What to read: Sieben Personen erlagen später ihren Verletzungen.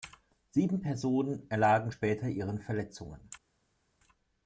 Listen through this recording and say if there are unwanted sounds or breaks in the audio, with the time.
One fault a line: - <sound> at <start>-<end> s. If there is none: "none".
none